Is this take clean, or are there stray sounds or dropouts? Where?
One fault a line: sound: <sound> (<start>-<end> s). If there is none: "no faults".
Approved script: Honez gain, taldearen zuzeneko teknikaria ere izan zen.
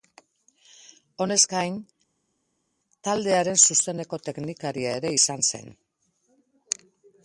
no faults